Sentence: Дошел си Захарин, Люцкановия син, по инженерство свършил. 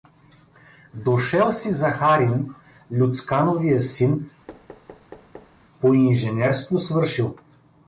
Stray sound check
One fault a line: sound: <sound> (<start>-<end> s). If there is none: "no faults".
sound: thud (4.5-5.6 s)